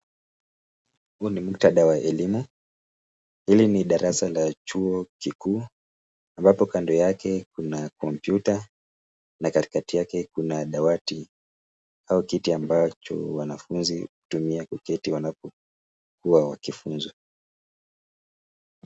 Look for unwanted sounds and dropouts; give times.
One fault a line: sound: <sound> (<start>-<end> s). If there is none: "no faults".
no faults